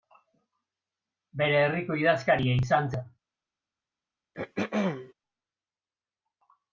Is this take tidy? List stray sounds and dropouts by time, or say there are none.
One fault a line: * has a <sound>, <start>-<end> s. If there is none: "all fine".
* has a throat clearing, 4.3-5.1 s